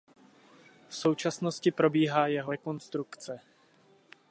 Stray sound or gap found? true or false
false